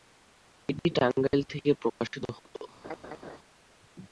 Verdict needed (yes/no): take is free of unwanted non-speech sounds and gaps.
no